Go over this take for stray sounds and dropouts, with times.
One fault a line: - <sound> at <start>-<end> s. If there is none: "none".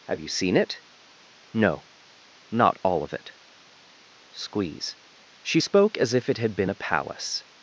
none